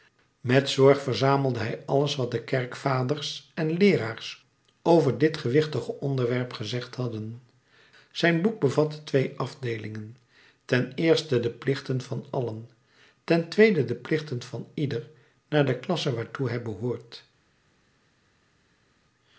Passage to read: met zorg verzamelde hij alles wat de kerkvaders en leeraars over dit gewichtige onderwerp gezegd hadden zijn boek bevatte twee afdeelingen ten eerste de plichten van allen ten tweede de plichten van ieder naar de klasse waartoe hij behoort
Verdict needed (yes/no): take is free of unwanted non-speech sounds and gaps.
yes